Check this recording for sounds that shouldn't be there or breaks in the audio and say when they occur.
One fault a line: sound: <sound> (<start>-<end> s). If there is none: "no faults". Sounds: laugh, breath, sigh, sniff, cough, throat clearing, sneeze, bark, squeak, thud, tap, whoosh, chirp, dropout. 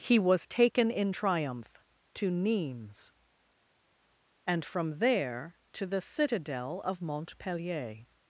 no faults